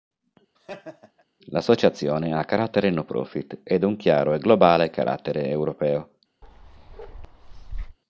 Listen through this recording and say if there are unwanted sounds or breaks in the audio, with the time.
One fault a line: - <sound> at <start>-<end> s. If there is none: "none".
- laugh at 0.5-1.2 s
- bark at 6.4-8.0 s